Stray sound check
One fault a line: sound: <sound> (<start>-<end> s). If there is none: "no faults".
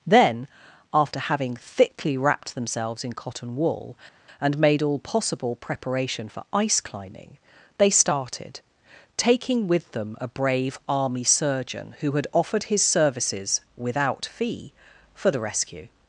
no faults